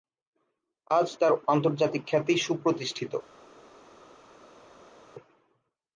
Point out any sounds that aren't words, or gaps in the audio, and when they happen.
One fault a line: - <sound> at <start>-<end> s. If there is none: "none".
none